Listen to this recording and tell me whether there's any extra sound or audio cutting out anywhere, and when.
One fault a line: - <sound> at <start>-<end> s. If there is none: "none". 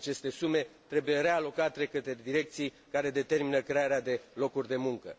none